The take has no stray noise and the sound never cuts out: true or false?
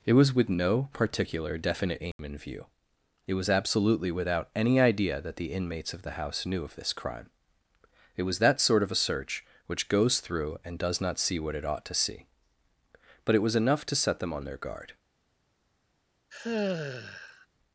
false